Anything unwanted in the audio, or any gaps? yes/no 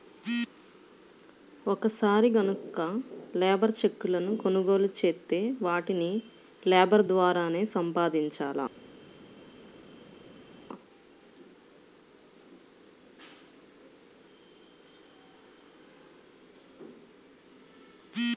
no